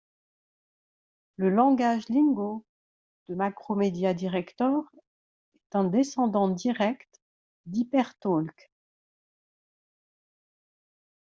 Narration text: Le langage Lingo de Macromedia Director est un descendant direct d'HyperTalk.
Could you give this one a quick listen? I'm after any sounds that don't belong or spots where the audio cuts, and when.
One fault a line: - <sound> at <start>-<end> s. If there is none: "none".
none